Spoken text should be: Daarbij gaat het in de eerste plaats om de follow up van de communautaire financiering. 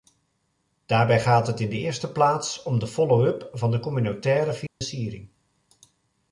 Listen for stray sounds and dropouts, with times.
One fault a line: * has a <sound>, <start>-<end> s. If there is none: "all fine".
* has a dropout, 4.7-4.8 s